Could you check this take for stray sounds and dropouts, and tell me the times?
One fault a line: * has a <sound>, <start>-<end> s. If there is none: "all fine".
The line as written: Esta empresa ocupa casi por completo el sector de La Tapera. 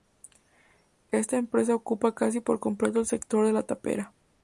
all fine